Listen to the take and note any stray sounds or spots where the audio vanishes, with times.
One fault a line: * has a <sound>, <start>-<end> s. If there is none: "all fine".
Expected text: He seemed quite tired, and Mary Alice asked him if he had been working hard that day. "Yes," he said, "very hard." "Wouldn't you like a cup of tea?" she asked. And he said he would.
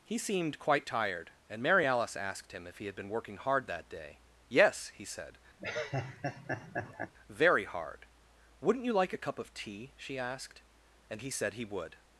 * has a laugh, 5.6-7.1 s